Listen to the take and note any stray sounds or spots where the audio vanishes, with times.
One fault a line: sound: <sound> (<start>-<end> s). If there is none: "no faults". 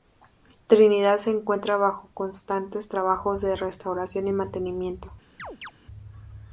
sound: chirp (5.4-5.7 s)